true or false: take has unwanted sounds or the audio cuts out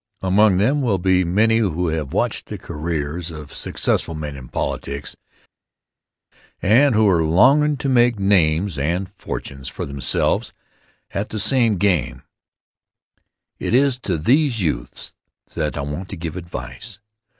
false